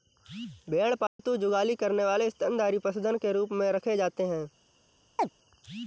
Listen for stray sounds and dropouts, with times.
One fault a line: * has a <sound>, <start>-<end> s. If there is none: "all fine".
* has a dropout, 1.1-1.2 s
* has a chirp, 5.2-5.3 s